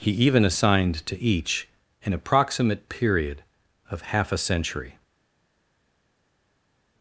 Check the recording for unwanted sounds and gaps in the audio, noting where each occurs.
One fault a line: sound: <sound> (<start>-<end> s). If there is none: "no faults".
no faults